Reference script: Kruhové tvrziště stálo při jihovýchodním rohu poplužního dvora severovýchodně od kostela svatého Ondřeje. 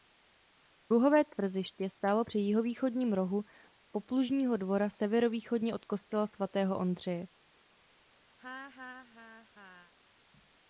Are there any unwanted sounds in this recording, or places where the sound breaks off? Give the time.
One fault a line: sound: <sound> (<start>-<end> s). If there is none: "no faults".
sound: laugh (8.4-9.9 s)